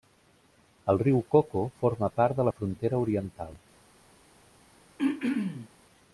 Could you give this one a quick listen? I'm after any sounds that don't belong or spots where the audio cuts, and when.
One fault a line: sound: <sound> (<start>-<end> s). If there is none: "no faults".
sound: throat clearing (5.0-5.7 s)